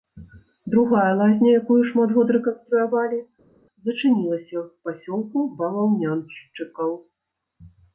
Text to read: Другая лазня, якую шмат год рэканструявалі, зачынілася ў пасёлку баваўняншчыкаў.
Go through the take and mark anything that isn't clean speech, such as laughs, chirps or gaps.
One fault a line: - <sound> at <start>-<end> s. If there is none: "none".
none